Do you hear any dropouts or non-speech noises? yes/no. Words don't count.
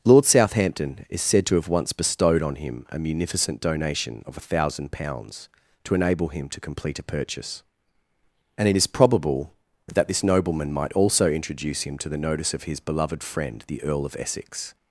no